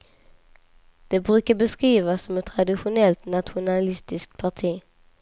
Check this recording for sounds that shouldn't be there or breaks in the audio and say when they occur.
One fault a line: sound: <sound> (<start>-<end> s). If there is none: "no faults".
no faults